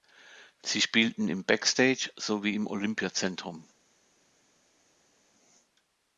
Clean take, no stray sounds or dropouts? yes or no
yes